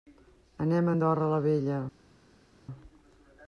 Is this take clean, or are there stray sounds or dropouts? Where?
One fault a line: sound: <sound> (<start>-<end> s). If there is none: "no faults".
no faults